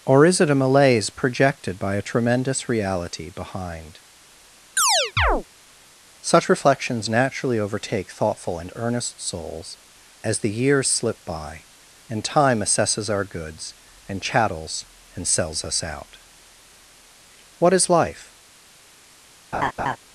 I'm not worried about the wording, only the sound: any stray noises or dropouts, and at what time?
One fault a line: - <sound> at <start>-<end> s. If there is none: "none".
- chirp at 4.8-5.4 s
- laugh at 19.5-20.0 s